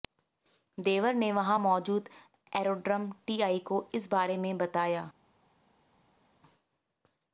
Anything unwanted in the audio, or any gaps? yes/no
no